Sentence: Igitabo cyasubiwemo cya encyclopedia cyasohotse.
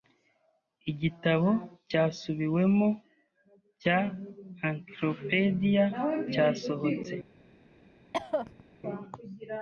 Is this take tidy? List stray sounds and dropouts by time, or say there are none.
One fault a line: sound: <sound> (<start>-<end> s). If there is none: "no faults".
sound: cough (8.1-8.6 s)